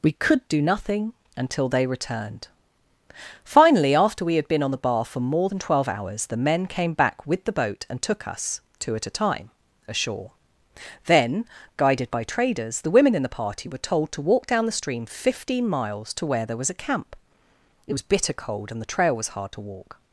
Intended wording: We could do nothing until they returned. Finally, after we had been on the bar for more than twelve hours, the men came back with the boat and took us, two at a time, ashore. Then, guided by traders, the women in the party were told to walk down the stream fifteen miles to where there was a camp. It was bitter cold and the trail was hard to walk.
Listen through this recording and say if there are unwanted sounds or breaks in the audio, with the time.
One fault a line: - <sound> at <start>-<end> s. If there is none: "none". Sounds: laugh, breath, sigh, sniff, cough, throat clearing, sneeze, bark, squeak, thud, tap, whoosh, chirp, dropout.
none